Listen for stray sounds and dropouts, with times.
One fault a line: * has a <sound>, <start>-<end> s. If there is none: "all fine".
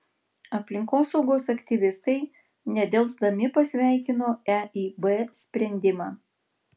all fine